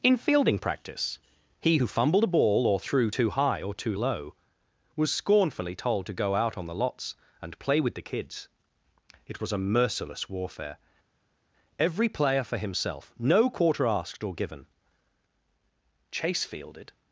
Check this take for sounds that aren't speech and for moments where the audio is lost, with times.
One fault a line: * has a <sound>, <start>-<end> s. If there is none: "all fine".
all fine